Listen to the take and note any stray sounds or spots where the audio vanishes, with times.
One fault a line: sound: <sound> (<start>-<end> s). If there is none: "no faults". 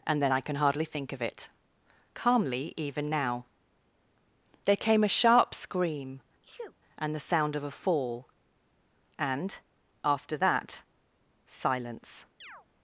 sound: sneeze (6.4-6.8 s)
sound: chirp (12.4-12.7 s)